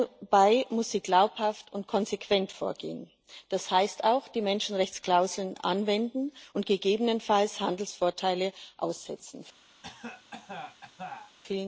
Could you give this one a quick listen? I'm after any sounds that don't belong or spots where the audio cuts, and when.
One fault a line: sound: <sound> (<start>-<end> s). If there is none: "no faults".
sound: cough (9.8-11.4 s)